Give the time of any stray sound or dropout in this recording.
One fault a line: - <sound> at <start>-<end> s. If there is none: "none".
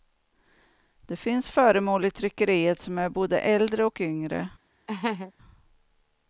- laugh at 4.9-5.3 s